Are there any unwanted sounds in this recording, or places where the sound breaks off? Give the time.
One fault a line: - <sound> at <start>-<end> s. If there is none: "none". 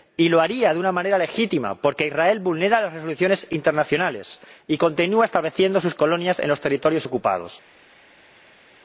none